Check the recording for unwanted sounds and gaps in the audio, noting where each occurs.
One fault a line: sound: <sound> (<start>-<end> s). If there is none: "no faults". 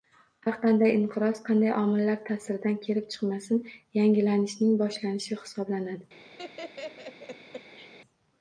sound: laugh (6.4-7.9 s)